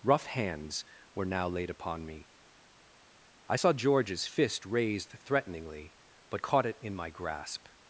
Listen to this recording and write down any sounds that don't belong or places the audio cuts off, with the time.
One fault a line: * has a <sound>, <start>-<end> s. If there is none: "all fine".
all fine